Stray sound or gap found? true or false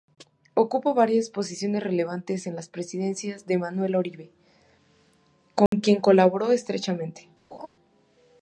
true